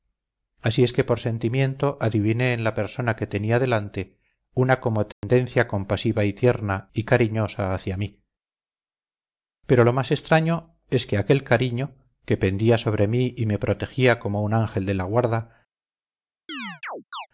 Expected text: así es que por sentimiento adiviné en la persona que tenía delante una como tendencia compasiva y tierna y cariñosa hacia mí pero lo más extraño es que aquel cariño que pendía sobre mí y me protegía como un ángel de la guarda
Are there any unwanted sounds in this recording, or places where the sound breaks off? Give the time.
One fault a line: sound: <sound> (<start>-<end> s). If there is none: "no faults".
sound: dropout (5.1-5.2 s)
sound: chirp (16.5-17.3 s)